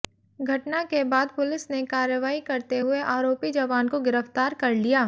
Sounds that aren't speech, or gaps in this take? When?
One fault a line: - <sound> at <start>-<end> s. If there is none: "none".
none